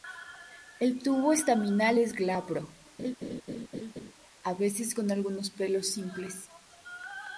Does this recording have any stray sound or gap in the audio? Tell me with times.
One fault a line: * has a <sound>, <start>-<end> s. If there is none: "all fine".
* has a laugh, 3.0-4.1 s